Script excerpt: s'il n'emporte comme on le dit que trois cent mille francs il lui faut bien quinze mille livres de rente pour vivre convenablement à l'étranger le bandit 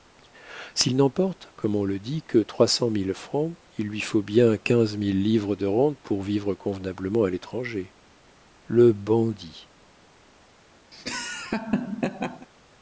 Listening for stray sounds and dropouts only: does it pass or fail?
fail